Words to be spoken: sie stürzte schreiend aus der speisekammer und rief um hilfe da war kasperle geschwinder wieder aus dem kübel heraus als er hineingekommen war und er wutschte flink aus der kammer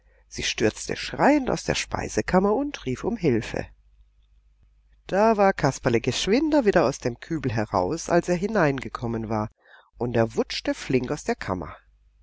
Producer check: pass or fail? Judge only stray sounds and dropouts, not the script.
pass